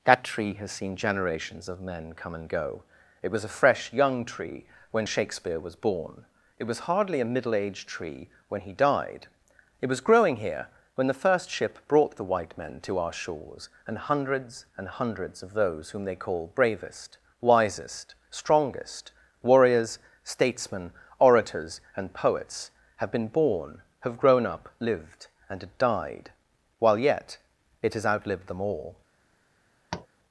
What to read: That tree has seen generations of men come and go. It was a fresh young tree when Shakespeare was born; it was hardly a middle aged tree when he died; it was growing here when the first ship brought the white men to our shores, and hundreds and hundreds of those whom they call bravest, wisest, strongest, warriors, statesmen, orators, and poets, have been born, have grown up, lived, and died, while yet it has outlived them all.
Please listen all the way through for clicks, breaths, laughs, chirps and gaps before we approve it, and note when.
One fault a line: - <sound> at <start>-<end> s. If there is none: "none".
- tap at 29.9-30.1 s